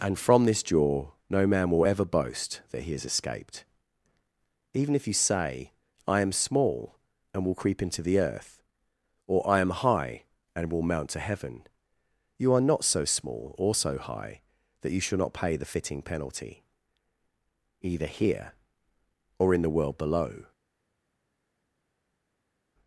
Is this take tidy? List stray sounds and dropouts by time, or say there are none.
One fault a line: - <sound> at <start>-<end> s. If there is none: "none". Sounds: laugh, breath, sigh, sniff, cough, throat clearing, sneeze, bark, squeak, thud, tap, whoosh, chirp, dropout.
none